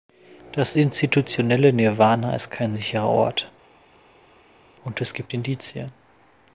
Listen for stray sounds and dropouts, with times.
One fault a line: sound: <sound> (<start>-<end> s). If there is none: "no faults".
no faults